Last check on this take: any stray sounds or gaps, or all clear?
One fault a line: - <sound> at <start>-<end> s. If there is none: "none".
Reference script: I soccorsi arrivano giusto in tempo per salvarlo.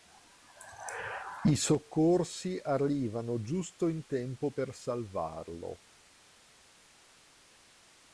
none